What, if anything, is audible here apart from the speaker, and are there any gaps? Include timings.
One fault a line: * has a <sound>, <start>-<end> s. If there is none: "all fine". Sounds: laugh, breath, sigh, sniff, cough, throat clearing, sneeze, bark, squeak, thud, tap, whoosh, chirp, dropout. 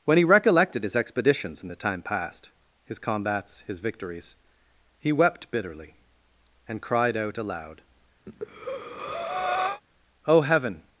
* has a breath, 8.3-9.8 s